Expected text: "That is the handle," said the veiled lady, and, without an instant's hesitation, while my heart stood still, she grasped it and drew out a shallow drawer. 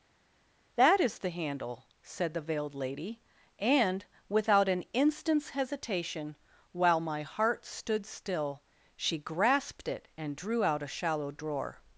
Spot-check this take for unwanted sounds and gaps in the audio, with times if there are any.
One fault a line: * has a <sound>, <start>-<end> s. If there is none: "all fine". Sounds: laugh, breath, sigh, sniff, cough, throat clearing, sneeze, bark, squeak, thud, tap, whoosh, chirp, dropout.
all fine